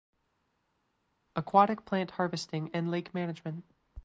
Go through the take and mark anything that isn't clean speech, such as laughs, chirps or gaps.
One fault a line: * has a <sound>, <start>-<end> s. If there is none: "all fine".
all fine